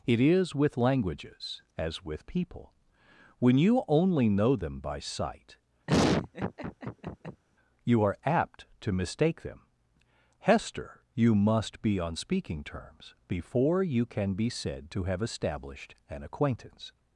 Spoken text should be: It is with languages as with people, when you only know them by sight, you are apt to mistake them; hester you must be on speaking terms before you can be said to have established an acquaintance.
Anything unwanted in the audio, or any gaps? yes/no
yes